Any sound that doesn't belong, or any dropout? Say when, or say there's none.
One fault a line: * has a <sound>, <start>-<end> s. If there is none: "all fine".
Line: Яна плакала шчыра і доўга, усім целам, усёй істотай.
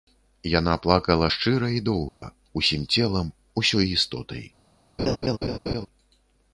* has a dropout, 2.1-2.2 s
* has a laugh, 5.0-5.9 s